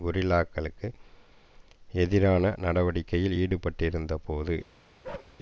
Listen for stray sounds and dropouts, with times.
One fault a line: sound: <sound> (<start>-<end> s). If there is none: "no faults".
sound: bark (5.0-5.4 s)